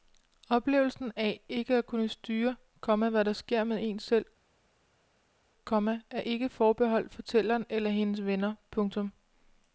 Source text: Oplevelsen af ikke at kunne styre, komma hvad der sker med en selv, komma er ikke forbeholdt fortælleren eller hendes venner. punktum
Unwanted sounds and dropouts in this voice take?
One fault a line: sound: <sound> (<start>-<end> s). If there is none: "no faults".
no faults